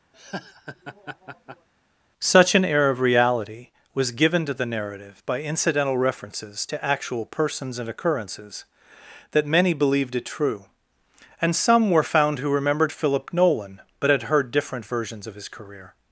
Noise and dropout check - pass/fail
fail